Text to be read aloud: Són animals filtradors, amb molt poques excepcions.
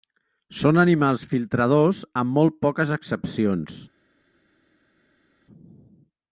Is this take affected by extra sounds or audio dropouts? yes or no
no